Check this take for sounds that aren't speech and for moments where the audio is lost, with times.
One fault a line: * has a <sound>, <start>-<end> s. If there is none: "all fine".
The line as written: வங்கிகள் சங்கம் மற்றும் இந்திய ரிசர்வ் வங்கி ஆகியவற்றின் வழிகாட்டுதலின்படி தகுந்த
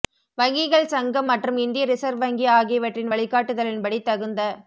all fine